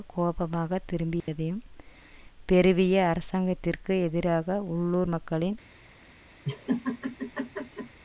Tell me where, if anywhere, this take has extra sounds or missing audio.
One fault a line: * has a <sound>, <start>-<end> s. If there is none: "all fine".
* has a dropout, 1.2-1.3 s
* has a laugh, 6.5-8.0 s